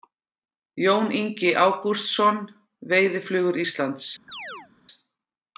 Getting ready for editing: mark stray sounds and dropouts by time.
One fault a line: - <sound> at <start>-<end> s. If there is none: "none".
- chirp at 4.3-4.7 s